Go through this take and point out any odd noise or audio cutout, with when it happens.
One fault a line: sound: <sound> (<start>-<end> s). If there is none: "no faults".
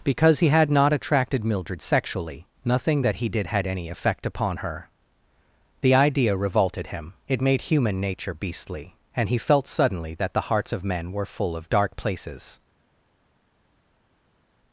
no faults